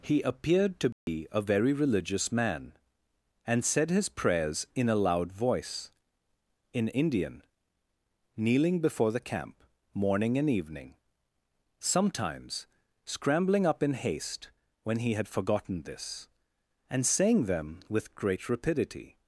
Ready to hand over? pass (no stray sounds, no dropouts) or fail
fail